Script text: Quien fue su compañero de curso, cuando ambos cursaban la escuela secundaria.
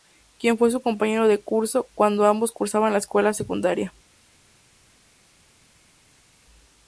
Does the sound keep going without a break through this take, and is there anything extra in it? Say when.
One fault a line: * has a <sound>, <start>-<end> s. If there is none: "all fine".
all fine